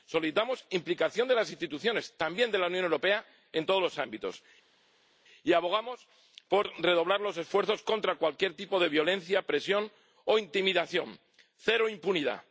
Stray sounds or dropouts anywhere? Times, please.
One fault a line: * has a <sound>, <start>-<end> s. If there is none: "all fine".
all fine